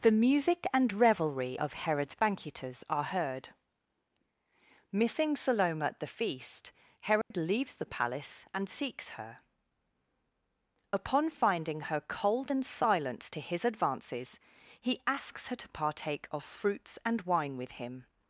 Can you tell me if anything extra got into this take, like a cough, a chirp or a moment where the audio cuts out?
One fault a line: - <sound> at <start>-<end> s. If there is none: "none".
- dropout at 7.2-7.3 s